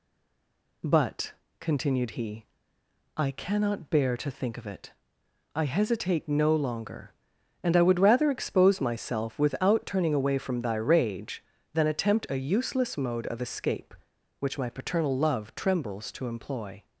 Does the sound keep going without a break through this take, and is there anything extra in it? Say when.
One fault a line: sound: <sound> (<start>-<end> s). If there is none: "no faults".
no faults